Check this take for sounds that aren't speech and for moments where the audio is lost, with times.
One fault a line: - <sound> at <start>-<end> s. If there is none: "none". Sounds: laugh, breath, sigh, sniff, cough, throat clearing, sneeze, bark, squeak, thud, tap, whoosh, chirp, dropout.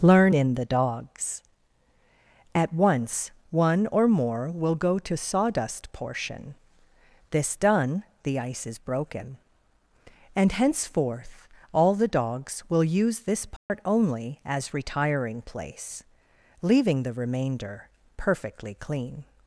- dropout at 13.6-13.7 s